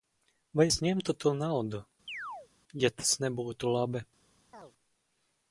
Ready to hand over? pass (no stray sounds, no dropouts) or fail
fail